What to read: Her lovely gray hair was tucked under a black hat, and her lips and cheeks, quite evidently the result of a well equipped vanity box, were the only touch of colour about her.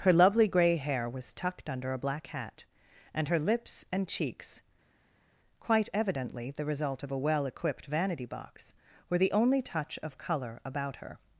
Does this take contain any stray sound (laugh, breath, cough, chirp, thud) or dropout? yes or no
no